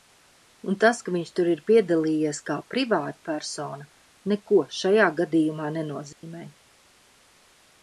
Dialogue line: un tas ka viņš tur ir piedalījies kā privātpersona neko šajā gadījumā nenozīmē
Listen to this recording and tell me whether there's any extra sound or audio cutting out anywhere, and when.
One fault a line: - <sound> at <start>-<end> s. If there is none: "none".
- dropout at 6.1-6.2 s